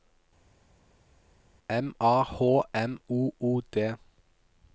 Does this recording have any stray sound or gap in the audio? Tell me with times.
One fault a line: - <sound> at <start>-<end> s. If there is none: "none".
none